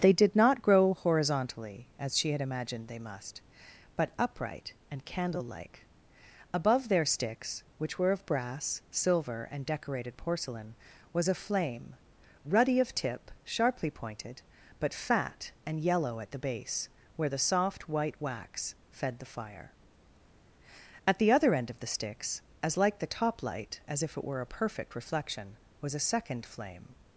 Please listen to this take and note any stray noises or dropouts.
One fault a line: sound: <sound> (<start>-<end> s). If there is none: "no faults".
no faults